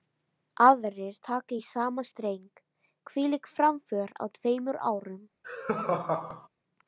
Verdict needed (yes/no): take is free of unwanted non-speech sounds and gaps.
no